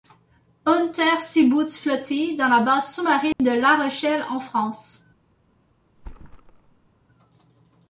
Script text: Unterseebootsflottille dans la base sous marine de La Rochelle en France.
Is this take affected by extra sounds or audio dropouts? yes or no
yes